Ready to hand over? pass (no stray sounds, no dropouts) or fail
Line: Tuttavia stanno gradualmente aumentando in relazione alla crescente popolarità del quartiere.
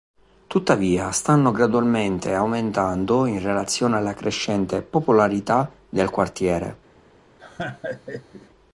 fail